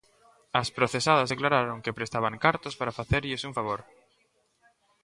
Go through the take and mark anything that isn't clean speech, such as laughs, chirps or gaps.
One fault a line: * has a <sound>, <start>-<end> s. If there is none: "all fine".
all fine